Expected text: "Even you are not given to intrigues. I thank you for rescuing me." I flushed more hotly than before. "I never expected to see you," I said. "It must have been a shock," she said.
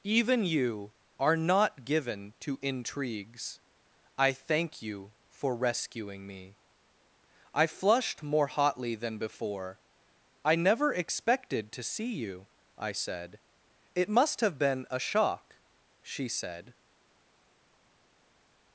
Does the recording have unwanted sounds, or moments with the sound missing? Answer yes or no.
no